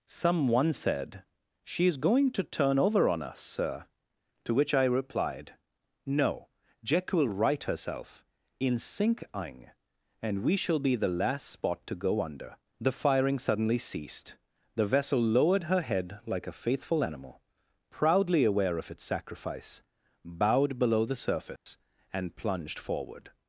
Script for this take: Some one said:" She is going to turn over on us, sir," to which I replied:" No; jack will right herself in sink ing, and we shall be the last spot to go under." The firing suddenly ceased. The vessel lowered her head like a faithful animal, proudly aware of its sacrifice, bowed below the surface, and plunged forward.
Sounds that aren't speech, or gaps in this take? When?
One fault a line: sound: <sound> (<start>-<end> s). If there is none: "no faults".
sound: dropout (21.6-21.7 s)